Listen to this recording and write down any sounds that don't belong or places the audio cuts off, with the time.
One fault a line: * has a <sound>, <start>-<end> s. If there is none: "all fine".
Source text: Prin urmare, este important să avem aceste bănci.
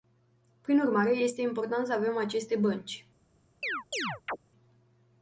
* has a chirp, 3.6-4.4 s